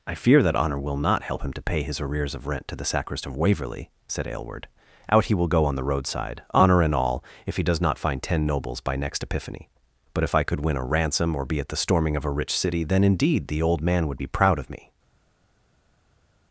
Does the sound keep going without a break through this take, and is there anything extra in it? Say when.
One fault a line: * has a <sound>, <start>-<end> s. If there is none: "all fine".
all fine